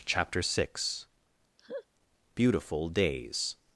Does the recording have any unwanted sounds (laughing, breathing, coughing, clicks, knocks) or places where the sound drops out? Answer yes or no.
yes